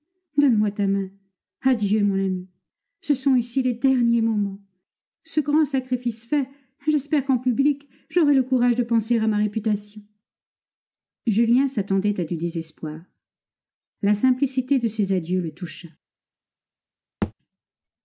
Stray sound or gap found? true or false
true